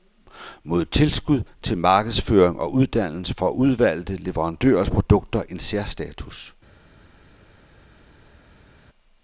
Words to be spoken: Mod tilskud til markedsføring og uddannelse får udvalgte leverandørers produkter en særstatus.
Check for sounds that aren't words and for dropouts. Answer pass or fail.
pass